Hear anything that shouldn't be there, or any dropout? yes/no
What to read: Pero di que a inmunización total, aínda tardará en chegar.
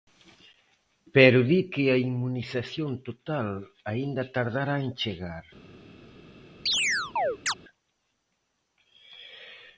yes